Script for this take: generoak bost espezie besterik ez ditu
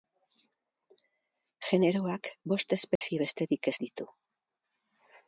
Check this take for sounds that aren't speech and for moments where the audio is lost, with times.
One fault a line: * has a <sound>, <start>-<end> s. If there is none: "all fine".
* has a dropout, 3.0-3.0 s